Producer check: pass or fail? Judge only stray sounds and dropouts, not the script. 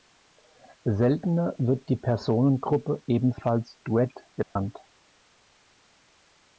fail